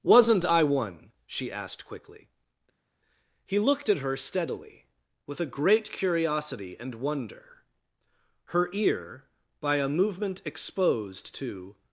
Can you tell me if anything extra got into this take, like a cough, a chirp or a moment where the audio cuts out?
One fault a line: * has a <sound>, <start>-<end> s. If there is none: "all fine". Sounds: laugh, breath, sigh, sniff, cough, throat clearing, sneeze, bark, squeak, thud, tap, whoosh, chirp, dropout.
all fine